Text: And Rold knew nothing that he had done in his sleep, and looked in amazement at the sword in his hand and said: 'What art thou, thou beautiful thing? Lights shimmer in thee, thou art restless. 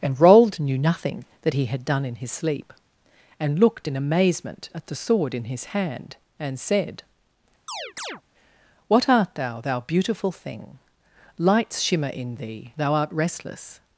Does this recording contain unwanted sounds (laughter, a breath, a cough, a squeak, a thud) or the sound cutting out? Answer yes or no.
yes